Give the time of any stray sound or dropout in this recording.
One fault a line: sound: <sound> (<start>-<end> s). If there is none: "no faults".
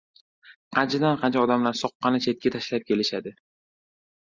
no faults